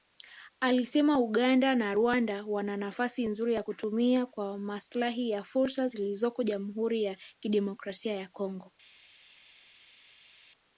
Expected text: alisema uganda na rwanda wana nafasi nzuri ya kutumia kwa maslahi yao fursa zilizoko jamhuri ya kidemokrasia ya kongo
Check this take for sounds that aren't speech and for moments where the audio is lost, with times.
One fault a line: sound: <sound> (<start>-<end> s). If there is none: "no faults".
no faults